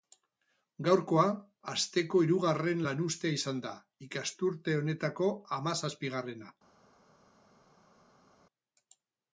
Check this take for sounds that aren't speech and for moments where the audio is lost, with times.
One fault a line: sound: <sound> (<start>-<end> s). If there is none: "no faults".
no faults